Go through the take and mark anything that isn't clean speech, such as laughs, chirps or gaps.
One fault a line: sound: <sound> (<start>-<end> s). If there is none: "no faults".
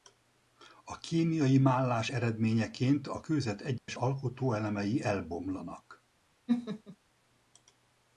sound: dropout (3.8-3.9 s)
sound: laugh (6.5-7.0 s)